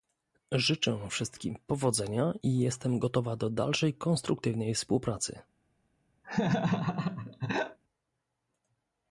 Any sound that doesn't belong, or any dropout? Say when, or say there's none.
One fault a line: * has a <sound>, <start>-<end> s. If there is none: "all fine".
* has a laugh, 6.2-7.8 s